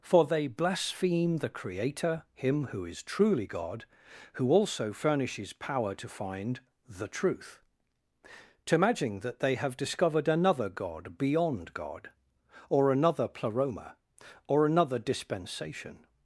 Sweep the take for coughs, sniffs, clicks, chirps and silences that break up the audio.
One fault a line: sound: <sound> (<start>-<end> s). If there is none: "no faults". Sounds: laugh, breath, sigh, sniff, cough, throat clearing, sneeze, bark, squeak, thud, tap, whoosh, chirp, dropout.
no faults